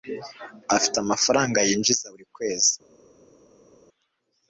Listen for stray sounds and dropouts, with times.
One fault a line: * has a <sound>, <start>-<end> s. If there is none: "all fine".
all fine